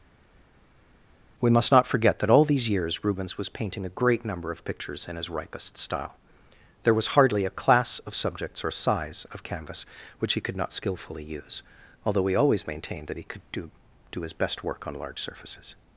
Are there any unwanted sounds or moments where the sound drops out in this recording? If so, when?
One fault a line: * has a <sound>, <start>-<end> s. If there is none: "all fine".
all fine